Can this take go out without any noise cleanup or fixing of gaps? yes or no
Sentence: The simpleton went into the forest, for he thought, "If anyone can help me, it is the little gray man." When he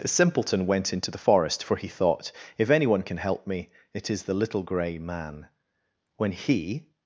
yes